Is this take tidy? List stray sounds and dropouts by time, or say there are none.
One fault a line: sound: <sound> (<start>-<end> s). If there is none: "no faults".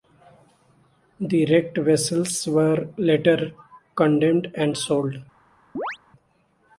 sound: chirp (5.8-6.0 s)